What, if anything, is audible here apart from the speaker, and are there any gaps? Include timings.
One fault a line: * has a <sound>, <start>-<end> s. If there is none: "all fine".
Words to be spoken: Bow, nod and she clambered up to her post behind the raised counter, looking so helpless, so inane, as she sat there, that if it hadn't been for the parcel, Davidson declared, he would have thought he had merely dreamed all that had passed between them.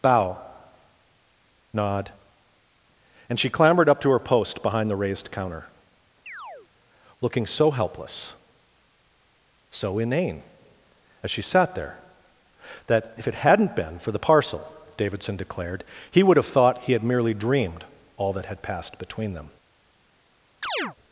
* has a chirp, 6.3-6.7 s
* has a chirp, 20.6-21.0 s